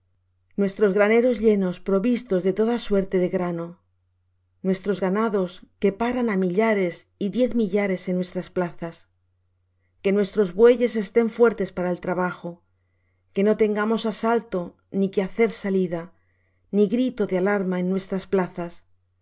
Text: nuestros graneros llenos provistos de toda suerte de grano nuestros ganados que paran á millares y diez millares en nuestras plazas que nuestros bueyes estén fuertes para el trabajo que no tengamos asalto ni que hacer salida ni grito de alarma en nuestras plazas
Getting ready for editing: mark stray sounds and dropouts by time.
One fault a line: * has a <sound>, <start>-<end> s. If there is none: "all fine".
all fine